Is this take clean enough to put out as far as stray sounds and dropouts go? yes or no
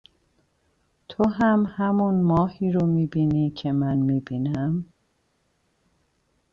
yes